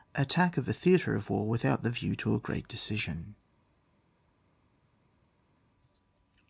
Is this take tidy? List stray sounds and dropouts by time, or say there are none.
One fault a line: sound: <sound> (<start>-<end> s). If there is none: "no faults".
no faults